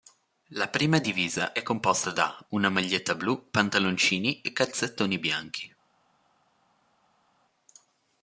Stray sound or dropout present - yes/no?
no